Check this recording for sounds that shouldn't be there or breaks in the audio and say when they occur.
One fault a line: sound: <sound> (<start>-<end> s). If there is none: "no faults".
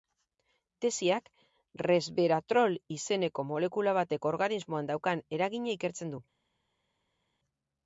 no faults